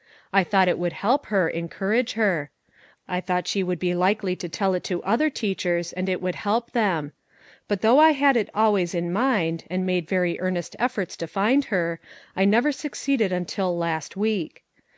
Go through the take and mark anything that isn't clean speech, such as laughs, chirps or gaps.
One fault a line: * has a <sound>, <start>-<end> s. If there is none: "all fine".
all fine